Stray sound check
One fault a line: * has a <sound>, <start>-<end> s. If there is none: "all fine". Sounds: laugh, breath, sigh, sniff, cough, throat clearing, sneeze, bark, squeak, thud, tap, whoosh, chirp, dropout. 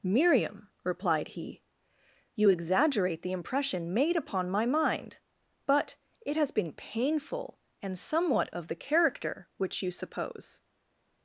all fine